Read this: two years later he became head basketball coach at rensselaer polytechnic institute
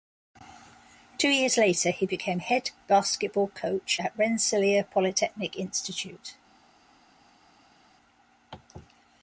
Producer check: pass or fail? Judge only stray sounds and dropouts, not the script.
pass